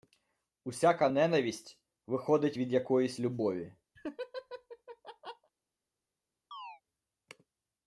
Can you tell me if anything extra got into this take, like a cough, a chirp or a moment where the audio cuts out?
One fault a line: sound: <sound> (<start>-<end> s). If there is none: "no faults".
sound: laugh (4.0-5.5 s)
sound: chirp (6.5-6.8 s)